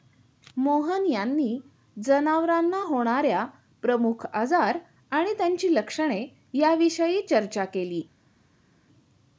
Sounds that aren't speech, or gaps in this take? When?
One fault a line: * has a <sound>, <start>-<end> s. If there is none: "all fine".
all fine